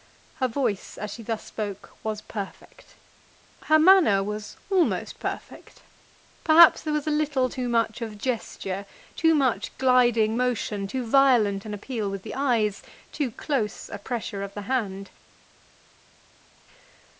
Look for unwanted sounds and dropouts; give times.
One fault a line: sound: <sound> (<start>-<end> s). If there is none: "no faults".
no faults